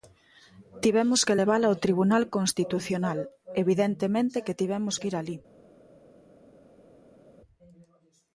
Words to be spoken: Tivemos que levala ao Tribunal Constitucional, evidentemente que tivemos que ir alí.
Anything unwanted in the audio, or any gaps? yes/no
no